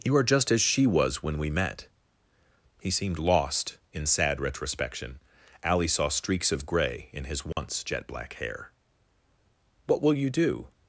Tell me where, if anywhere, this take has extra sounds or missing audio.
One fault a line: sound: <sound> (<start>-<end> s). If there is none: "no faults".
sound: dropout (7.5-7.6 s)